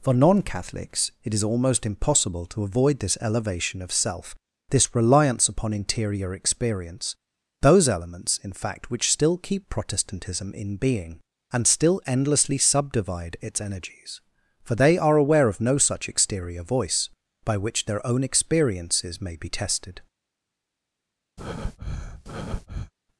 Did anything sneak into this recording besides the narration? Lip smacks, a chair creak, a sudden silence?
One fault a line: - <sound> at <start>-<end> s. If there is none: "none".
- breath at 21.4-22.9 s